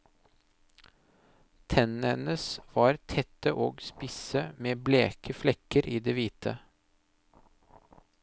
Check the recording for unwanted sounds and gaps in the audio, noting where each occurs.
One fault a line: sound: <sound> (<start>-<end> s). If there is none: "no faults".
no faults